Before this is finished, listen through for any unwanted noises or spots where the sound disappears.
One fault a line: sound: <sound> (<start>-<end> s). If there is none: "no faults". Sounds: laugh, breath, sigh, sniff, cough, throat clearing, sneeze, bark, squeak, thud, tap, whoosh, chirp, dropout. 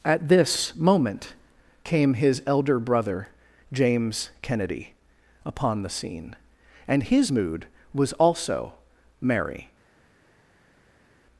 no faults